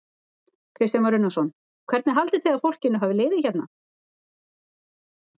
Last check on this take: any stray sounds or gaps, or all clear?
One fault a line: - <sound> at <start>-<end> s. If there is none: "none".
none